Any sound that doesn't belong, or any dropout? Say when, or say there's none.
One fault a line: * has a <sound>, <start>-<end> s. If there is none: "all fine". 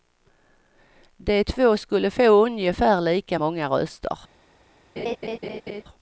* has a laugh, 5.0-5.8 s